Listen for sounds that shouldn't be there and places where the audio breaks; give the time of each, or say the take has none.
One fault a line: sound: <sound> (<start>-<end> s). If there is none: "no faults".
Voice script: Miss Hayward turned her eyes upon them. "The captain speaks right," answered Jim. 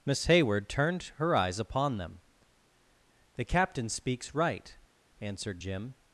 no faults